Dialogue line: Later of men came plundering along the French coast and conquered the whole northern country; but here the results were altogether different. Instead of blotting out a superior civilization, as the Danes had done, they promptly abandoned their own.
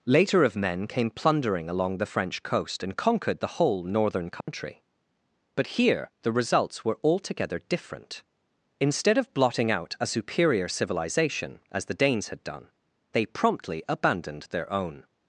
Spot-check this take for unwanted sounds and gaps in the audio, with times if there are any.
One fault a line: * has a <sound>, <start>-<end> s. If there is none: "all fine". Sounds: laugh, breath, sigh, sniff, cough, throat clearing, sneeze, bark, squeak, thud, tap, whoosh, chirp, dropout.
* has a dropout, 4.4-4.5 s